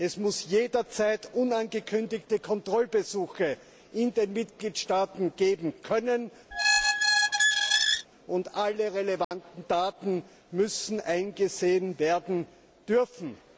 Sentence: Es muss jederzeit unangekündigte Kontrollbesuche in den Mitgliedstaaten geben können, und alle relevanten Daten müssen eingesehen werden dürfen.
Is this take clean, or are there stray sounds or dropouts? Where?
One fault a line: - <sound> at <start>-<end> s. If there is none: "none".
- squeak at 6.5-8.1 s
- dropout at 9.2-9.3 s